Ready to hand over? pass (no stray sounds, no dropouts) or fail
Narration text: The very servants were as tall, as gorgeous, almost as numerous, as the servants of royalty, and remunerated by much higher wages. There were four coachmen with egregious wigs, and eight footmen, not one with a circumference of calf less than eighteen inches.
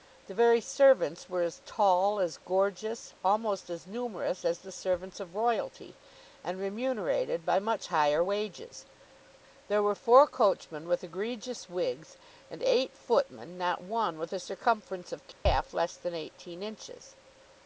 fail